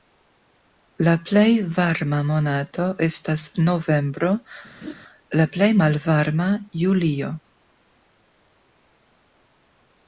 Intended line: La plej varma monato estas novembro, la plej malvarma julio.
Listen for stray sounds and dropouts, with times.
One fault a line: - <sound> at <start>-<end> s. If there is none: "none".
- laugh at 4.8-4.9 s